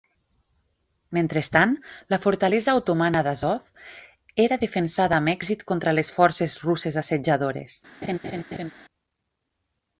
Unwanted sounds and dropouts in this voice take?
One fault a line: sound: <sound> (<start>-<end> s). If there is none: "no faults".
sound: laugh (8.0-8.7 s)